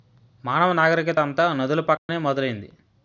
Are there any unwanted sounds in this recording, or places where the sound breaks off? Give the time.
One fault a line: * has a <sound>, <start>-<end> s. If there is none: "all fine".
* has a dropout, 2.0-2.1 s